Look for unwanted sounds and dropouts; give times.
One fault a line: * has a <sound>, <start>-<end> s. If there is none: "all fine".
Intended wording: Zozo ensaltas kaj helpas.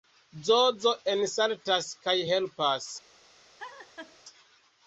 * has a laugh, 3.6-4.2 s